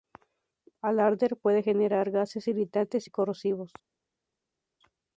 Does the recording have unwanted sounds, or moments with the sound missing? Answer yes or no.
no